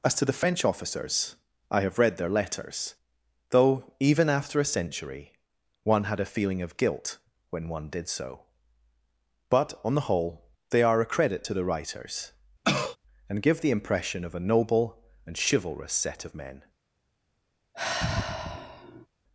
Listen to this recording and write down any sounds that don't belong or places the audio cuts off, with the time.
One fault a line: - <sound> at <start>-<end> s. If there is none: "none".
- cough at 12.6-13.0 s
- sigh at 17.7-19.1 s